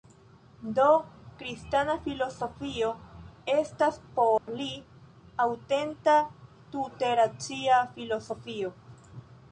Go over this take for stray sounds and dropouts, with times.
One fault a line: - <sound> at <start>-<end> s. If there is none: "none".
- dropout at 4.4-4.5 s